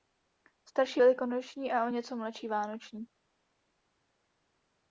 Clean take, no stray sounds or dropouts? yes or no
yes